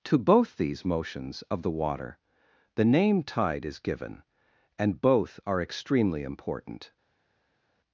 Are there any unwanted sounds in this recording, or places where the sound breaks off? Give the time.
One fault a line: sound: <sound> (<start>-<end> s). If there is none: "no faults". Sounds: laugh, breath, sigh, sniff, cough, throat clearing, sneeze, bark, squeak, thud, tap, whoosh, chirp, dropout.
no faults